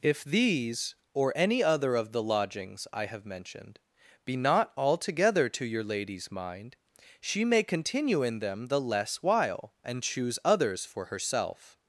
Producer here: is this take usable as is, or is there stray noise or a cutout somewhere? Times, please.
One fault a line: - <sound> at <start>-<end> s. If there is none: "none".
none